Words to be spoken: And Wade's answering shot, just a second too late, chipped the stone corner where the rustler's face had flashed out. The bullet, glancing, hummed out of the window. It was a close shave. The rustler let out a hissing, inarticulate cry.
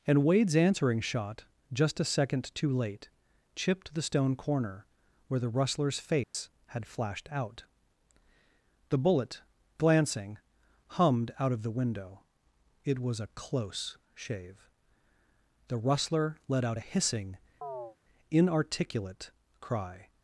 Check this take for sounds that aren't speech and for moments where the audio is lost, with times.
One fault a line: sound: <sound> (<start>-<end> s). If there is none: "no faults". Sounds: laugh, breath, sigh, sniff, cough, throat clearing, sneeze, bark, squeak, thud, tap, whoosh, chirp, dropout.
sound: dropout (6.2-6.3 s)
sound: chirp (17.6-18.0 s)